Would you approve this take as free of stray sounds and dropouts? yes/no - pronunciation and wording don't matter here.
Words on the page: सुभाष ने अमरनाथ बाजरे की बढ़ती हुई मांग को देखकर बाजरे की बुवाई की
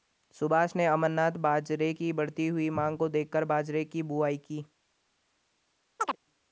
no